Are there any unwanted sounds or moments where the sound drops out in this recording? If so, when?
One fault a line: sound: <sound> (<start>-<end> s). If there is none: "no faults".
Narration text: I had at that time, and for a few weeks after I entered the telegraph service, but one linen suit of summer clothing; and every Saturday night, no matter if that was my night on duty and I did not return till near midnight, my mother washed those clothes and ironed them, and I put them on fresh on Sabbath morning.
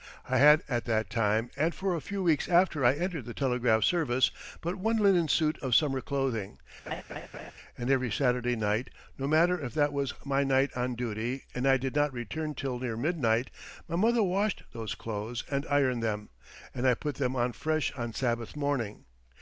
sound: laugh (6.9-7.5 s)